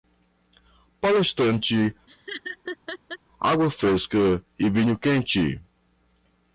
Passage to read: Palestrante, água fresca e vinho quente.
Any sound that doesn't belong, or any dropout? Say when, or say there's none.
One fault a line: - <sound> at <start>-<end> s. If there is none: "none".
- laugh at 2.1-3.2 s